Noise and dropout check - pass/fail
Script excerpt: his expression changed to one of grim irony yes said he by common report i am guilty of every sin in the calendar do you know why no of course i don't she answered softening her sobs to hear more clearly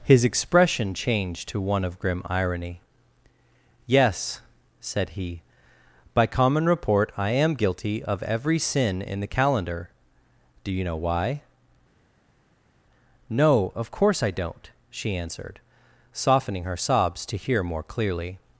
pass